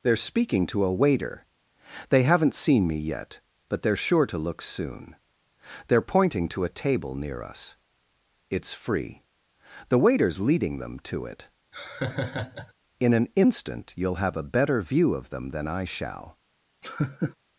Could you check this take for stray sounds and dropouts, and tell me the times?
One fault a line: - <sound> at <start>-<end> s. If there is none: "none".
- laugh at 11.7-12.7 s
- laugh at 16.8-17.4 s